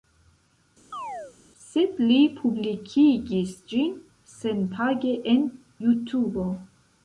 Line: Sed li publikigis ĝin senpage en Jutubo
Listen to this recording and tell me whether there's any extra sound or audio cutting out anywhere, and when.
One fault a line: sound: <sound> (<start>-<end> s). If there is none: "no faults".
sound: chirp (0.9-1.4 s)